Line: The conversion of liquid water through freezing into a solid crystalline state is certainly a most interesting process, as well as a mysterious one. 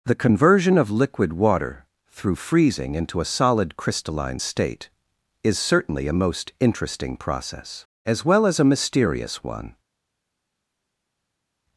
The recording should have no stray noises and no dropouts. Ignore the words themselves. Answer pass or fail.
pass